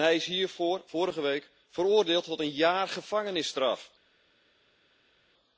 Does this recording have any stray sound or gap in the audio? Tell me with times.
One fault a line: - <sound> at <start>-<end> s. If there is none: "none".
none